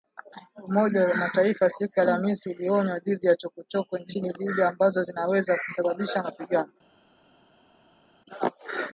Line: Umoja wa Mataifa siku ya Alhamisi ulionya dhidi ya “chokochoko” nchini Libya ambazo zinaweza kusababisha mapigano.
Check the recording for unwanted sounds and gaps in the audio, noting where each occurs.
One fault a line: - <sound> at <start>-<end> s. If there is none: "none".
none